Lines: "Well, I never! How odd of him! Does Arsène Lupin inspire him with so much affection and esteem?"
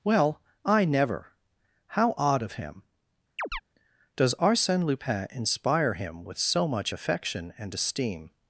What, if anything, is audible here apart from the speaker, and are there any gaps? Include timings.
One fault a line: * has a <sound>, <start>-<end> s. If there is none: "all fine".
* has a chirp, 3.4-3.6 s